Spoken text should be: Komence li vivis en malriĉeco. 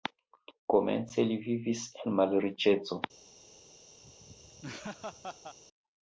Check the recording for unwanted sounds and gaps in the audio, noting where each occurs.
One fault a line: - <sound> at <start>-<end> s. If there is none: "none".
- laugh at 4.0-5.6 s